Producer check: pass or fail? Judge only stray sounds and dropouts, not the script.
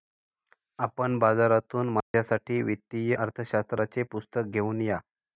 fail